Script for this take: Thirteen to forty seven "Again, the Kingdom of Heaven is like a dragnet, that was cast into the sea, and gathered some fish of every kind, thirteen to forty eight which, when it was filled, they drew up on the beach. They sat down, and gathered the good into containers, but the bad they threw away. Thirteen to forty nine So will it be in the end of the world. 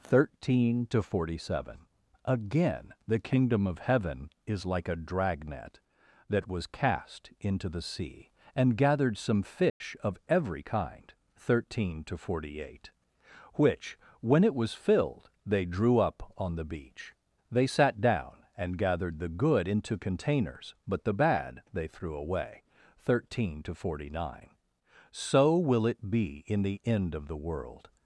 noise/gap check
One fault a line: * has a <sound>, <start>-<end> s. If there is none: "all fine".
* has a dropout, 9.7-9.8 s